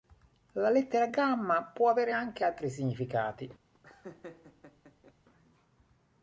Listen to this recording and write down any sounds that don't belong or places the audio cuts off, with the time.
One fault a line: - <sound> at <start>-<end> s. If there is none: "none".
- laugh at 3.7-5.1 s